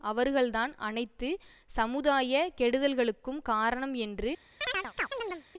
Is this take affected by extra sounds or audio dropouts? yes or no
yes